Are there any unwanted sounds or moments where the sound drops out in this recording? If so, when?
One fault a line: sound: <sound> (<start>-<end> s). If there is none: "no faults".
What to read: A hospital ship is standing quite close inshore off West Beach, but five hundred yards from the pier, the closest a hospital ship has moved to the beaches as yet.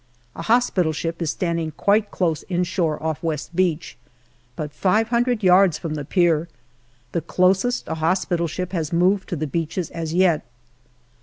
no faults